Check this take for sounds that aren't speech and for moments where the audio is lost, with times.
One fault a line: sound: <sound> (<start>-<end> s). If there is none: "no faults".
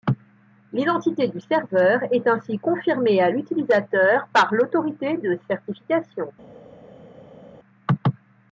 no faults